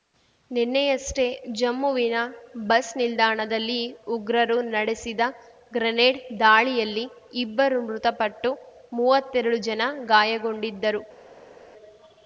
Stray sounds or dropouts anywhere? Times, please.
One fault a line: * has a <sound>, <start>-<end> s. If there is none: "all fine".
all fine